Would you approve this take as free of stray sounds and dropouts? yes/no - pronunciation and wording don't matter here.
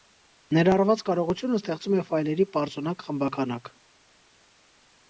yes